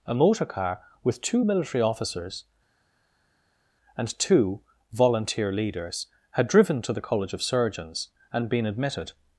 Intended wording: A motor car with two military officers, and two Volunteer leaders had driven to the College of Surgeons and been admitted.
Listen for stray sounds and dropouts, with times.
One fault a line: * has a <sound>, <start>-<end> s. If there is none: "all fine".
all fine